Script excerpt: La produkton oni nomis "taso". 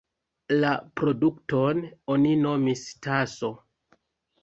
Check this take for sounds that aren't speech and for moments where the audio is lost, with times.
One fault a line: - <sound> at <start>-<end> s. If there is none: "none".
none